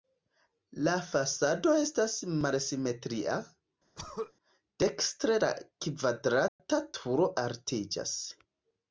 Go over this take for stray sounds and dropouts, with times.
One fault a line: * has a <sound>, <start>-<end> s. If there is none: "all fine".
* has a throat clearing, 3.9-4.3 s
* has a dropout, 6.5-6.6 s